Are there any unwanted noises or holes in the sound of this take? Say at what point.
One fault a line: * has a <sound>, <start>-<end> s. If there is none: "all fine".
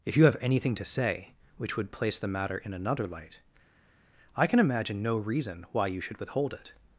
all fine